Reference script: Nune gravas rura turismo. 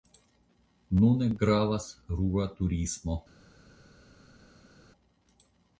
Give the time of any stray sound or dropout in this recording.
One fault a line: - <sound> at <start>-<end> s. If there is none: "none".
none